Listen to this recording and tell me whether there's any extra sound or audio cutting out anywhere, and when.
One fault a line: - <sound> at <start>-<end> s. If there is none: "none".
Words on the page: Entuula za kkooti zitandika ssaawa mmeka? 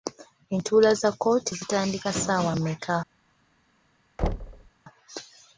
- thud at 4.2-4.7 s